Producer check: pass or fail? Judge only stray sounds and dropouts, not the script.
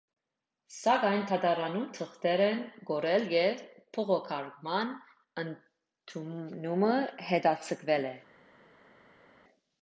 pass